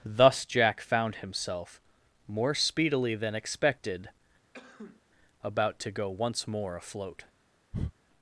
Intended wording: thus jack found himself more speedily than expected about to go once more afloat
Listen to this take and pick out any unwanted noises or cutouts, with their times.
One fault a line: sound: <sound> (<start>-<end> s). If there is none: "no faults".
sound: sneeze (4.5-5.0 s)
sound: breath (7.7-7.9 s)